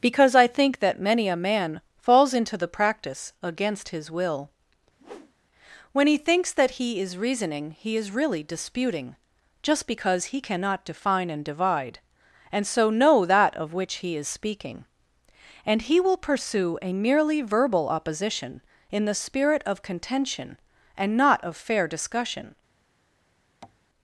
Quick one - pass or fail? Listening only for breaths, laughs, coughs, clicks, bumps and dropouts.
fail